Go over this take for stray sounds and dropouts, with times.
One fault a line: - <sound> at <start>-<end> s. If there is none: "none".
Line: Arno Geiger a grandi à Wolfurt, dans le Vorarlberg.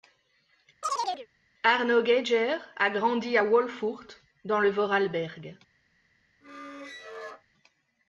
- chirp at 0.8-1.3 s
- squeak at 6.4-7.4 s